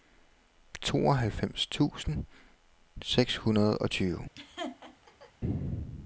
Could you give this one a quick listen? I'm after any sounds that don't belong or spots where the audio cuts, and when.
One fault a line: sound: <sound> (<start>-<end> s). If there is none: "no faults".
sound: laugh (4.4-5.3 s)